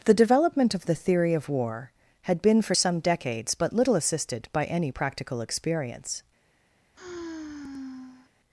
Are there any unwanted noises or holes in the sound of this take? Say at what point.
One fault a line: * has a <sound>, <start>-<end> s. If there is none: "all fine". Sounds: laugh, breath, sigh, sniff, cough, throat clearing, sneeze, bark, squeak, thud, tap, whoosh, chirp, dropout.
* has a sigh, 6.9-8.3 s